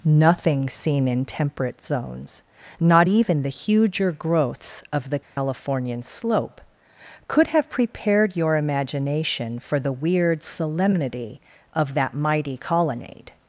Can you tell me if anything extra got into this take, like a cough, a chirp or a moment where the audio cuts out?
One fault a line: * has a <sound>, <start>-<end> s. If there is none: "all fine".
* has a dropout, 5.2-5.4 s